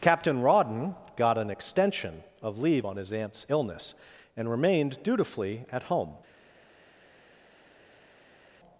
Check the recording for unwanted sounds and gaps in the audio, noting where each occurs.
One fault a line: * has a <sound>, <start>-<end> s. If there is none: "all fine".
all fine